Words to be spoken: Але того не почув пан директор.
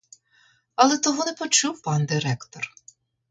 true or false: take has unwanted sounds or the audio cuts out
false